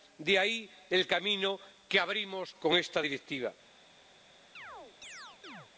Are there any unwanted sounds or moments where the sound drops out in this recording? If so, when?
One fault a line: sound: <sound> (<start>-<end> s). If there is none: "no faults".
sound: chirp (4.5-5.7 s)